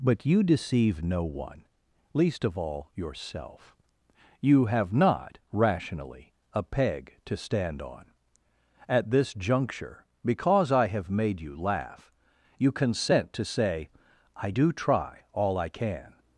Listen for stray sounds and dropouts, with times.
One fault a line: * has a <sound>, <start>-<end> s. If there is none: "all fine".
all fine